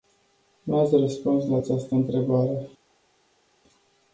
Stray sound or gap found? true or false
false